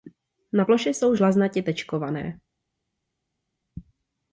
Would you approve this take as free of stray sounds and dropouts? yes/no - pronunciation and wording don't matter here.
yes